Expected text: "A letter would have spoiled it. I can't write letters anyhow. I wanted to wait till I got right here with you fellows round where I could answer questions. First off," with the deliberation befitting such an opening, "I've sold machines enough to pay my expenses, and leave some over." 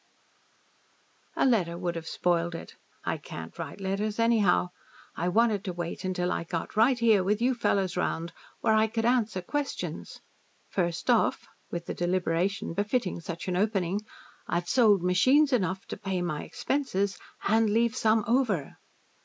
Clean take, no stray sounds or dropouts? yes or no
yes